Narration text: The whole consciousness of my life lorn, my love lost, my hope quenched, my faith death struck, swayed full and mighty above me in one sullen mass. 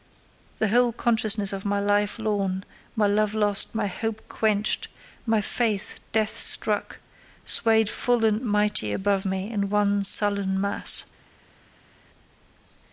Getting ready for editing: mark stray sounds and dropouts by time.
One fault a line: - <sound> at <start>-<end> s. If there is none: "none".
none